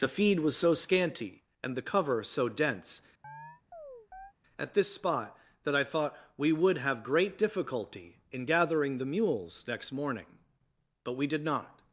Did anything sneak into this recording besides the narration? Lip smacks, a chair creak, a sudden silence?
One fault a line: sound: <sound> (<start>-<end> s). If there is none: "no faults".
sound: chirp (3.2-4.3 s)